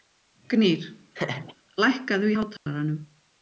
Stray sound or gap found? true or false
true